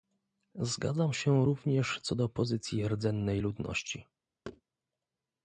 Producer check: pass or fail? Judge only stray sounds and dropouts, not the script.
fail